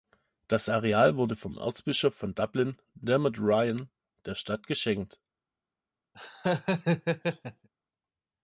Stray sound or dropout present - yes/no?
yes